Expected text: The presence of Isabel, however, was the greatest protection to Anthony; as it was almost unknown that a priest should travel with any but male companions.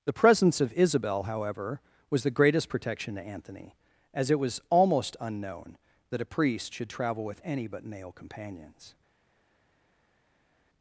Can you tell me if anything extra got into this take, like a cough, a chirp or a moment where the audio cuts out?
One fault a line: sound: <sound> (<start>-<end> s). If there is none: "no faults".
no faults